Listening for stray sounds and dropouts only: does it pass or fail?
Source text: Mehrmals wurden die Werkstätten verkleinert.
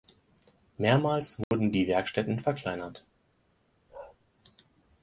fail